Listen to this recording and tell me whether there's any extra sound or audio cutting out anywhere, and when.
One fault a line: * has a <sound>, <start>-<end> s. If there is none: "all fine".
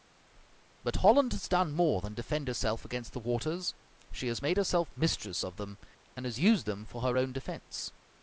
all fine